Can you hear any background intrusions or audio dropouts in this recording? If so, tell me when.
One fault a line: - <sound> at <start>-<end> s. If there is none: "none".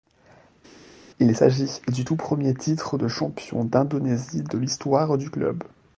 none